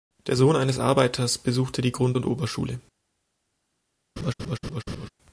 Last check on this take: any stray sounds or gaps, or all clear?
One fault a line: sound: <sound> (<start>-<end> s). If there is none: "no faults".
sound: laugh (4.2-5.1 s)